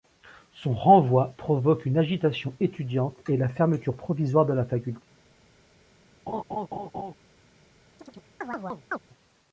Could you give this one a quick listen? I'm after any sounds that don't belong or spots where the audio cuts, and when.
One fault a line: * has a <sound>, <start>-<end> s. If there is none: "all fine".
* has a laugh, 6.3-7.1 s
* has a chirp, 8.0-9.0 s